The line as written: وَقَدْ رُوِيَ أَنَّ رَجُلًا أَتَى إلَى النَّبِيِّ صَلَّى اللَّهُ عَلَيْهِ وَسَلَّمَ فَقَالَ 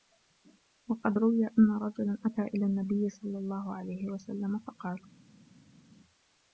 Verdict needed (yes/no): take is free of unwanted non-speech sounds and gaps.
yes